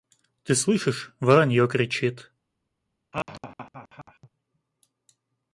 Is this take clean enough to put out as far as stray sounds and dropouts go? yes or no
no